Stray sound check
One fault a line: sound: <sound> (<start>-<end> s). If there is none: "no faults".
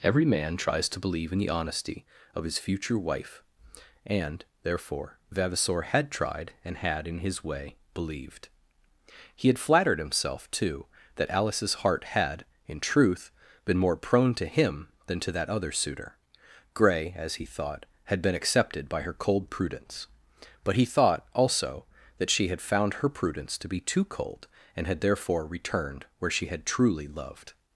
no faults